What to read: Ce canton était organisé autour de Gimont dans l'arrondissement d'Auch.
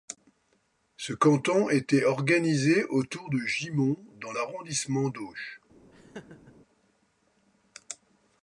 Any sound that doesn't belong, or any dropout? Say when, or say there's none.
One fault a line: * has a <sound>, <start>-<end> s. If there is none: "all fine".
* has a laugh, 5.9-6.5 s